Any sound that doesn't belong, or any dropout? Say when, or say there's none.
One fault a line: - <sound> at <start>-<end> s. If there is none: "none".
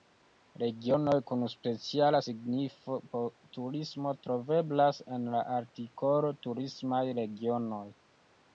none